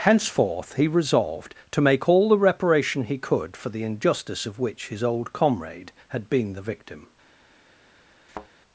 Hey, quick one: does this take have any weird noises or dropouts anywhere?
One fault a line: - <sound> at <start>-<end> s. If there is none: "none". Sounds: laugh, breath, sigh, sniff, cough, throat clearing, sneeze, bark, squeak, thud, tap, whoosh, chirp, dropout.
- thud at 8.3-8.5 s